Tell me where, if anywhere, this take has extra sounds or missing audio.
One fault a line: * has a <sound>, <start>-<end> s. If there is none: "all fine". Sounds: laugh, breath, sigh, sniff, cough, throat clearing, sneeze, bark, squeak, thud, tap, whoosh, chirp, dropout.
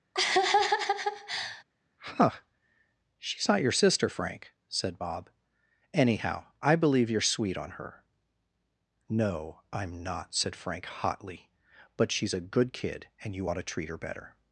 * has a laugh, 0.1-1.6 s